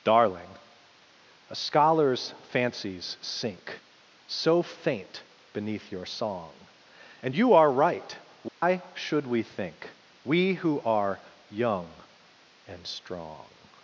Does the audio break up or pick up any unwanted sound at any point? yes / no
yes